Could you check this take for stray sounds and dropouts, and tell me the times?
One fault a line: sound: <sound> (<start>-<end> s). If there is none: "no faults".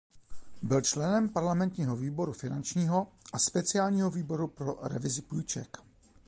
no faults